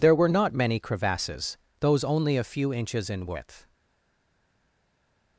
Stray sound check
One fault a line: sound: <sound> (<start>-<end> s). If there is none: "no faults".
no faults